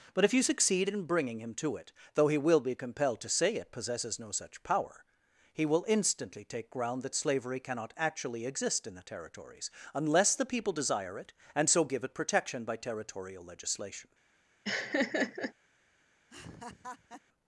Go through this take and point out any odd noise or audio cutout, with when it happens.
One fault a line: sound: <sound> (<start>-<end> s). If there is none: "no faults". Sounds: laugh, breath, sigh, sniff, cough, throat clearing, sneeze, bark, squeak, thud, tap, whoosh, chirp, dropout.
sound: laugh (14.6-15.5 s)
sound: laugh (16.3-17.2 s)